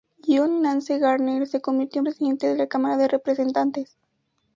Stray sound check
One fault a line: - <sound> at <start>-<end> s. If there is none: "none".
none